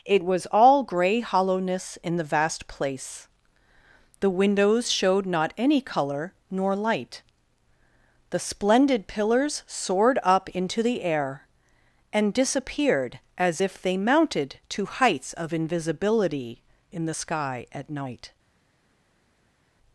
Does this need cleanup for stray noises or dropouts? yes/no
no